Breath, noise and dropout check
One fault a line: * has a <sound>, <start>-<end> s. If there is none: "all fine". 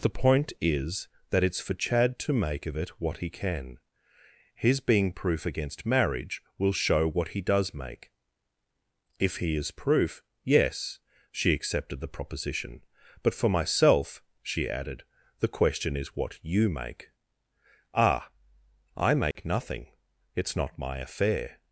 * has a dropout, 19.3-19.4 s